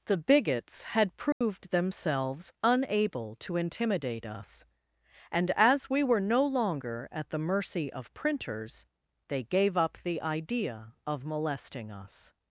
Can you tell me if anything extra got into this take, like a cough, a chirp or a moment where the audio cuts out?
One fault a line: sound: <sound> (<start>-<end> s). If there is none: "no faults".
sound: dropout (1.3-1.4 s)